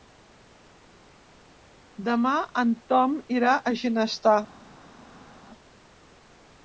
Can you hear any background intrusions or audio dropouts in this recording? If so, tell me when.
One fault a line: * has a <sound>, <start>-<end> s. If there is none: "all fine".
all fine